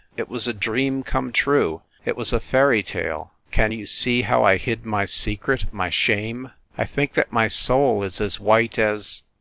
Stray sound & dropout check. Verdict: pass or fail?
pass